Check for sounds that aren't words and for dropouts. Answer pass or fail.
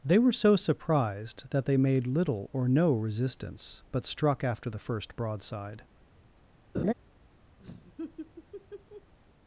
fail